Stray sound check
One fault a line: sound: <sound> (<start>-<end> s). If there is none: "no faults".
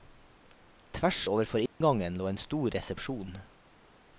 sound: dropout (1.7-1.8 s)